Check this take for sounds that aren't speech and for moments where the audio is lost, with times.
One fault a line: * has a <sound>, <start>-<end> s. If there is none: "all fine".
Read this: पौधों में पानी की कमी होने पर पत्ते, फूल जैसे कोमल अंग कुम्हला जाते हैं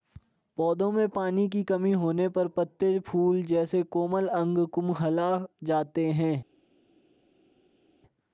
all fine